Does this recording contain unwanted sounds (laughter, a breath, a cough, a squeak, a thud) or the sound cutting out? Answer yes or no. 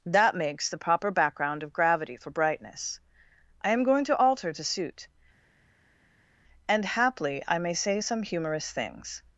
no